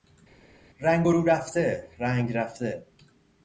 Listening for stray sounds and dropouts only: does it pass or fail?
pass